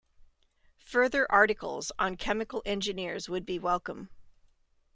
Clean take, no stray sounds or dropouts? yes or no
yes